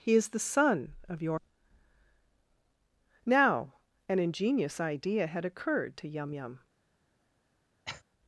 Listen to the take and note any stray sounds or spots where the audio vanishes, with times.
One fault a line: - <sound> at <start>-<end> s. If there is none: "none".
- cough at 7.8-8.0 s